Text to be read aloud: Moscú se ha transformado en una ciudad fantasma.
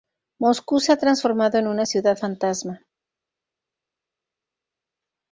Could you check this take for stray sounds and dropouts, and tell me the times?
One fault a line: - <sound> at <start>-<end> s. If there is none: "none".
none